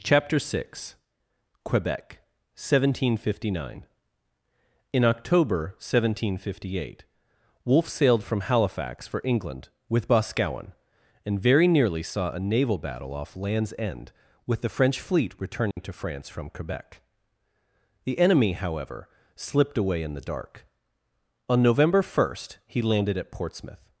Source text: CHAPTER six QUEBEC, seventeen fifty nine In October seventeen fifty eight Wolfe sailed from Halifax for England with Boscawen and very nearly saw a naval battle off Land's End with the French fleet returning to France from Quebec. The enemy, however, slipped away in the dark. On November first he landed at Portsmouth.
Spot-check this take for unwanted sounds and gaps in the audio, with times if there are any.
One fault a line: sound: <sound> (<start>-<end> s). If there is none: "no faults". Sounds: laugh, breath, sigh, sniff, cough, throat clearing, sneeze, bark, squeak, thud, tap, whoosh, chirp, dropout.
sound: dropout (15.7-15.8 s)